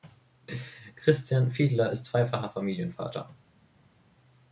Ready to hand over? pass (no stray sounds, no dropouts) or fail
pass